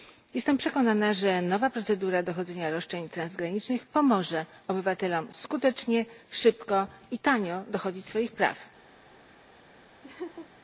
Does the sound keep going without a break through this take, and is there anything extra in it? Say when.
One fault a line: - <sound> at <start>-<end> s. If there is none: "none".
- laugh at 10.0-10.5 s